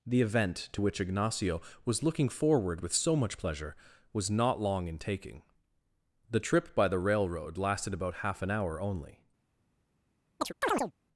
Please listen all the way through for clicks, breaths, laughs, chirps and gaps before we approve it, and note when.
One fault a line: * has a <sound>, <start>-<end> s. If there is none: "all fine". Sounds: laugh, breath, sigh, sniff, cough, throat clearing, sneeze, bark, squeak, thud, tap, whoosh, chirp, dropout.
* has a chirp, 10.4-10.9 s